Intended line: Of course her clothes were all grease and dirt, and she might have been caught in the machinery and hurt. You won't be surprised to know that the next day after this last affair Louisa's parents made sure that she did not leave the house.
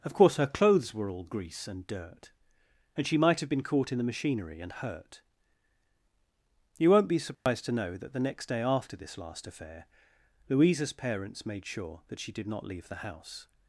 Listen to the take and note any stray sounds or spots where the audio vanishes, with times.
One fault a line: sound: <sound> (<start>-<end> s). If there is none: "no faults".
sound: dropout (7.3-7.5 s)